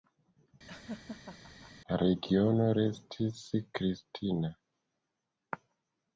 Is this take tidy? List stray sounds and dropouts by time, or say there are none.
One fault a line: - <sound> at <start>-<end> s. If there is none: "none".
- laugh at 0.7-1.7 s